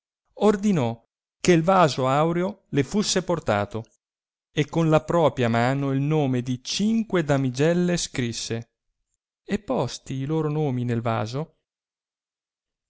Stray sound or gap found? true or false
false